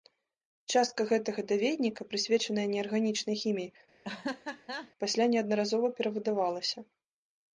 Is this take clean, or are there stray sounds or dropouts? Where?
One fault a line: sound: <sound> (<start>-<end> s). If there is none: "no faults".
sound: laugh (4.0-4.9 s)